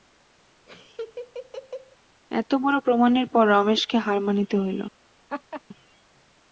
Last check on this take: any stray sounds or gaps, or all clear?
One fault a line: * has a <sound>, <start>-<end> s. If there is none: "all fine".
* has a laugh, 0.7-2.0 s
* has a laugh, 5.3-5.6 s